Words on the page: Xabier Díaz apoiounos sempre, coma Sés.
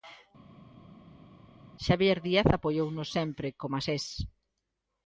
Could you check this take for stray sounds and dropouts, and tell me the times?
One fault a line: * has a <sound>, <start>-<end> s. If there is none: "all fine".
all fine